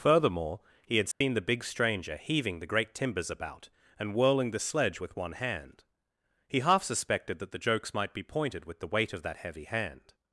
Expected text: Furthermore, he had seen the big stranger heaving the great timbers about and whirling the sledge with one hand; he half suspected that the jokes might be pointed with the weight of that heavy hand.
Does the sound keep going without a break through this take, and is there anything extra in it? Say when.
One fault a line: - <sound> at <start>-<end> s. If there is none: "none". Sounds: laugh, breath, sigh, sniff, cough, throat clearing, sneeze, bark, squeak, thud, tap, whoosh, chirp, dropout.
- dropout at 1.1-1.2 s